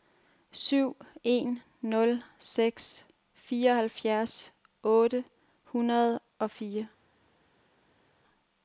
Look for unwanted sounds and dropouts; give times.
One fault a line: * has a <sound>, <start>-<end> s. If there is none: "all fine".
all fine